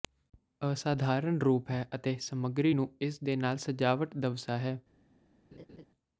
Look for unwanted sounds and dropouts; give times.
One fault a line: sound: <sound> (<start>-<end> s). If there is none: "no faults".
sound: laugh (5.5-5.9 s)